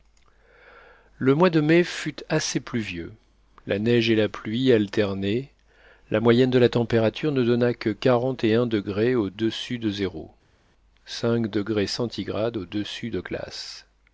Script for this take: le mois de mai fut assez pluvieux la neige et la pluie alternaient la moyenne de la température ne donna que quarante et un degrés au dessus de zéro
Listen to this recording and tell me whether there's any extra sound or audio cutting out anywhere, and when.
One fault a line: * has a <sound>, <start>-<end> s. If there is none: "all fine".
all fine